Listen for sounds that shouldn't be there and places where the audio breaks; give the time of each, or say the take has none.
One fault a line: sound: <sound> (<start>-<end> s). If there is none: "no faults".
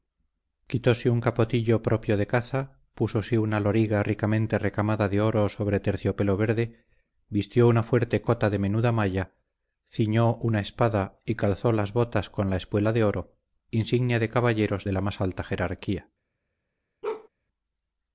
sound: bark (17.0-17.3 s)